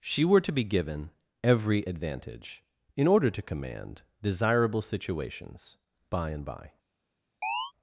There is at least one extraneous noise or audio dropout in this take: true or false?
true